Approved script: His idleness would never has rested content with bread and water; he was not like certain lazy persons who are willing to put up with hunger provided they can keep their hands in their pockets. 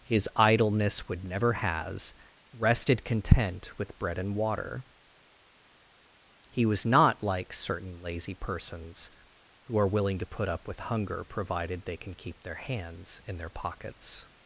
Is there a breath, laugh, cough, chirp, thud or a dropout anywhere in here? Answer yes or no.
no